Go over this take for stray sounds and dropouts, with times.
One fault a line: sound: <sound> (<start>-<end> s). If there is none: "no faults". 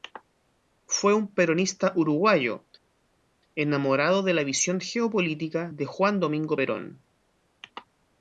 no faults